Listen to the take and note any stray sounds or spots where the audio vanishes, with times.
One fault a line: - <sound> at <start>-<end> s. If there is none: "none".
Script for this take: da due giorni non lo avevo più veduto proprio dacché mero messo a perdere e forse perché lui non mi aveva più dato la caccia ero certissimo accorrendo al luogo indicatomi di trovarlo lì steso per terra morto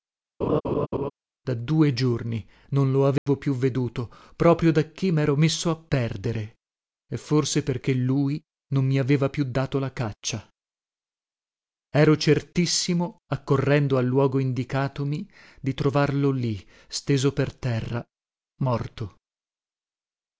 - laugh at 0.4-1.1 s
- dropout at 3.2-3.3 s